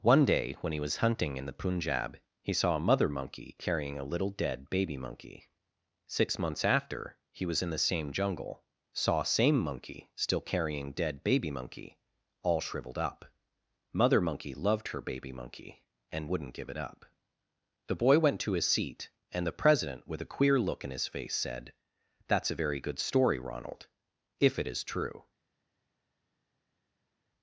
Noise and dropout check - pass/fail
pass